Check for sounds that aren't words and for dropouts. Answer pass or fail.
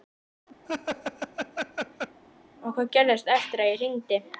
fail